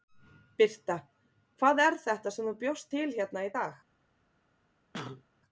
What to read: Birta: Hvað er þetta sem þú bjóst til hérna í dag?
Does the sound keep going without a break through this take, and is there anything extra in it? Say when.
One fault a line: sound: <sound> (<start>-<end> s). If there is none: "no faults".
sound: cough (4.9-5.2 s)